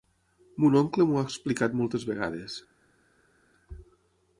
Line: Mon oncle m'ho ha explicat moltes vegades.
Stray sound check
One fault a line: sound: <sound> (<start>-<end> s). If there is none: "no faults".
no faults